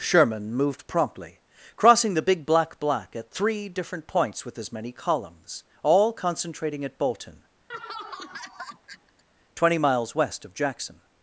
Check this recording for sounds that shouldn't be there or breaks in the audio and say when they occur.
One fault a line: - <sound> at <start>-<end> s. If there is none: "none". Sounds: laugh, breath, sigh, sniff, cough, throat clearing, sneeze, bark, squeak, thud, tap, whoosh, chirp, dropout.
- laugh at 7.7-9.2 s